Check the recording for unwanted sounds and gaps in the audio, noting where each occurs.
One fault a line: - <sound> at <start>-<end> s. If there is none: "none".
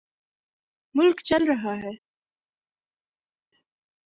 none